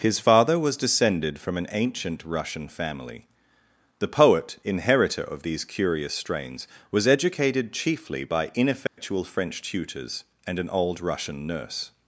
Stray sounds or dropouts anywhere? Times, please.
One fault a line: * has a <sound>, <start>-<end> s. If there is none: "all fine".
* has a dropout, 8.9-9.0 s